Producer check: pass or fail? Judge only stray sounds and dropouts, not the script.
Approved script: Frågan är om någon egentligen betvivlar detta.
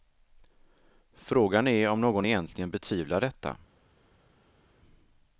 pass